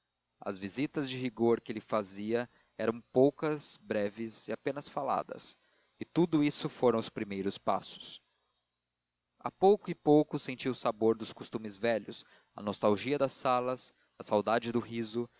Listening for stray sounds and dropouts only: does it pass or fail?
pass